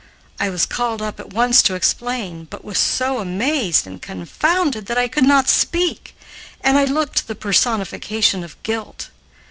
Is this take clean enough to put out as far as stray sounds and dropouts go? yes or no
yes